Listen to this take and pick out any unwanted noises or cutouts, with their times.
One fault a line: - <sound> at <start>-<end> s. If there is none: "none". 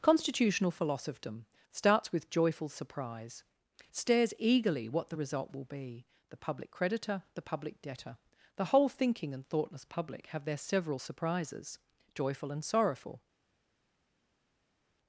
none